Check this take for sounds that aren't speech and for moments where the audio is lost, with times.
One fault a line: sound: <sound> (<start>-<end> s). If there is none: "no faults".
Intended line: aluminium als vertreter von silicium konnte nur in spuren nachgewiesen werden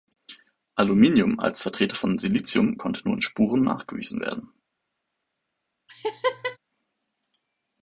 sound: laugh (5.9-6.6 s)